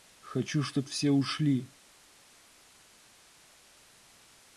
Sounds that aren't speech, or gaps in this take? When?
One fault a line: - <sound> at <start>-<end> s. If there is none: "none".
none